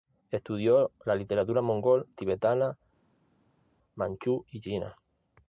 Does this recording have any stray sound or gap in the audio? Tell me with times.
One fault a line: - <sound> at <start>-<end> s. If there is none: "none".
none